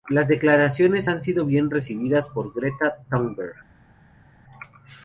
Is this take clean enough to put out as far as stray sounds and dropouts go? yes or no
yes